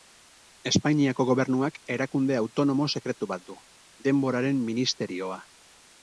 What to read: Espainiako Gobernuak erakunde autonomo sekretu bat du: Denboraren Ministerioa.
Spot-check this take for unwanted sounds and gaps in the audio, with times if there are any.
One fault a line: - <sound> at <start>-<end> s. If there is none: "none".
none